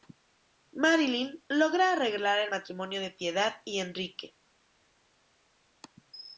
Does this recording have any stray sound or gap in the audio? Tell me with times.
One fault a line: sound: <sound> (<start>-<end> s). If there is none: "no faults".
no faults